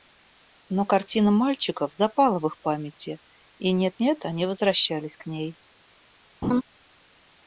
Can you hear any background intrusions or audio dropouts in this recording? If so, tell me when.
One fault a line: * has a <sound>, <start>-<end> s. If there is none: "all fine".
* has a laugh, 6.4-6.6 s